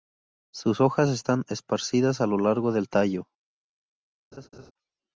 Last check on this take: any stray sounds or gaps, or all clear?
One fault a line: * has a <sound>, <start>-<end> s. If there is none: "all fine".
* has a laugh, 4.3-4.7 s